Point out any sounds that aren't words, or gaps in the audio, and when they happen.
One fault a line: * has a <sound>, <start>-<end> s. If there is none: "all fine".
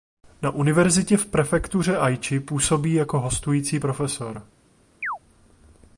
* has a chirp, 5.0-5.2 s